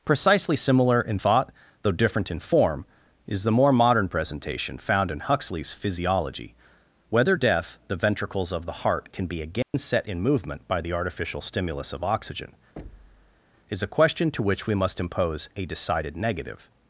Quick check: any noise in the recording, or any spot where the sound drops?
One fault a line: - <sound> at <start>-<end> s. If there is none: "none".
- dropout at 9.6-9.7 s
- thud at 12.8-13.4 s